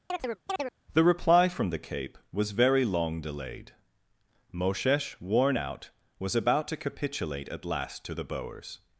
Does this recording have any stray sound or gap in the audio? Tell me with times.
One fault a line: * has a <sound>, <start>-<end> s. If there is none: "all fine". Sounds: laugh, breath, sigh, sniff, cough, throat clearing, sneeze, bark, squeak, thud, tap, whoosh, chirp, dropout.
* has a chirp, 0.1-0.7 s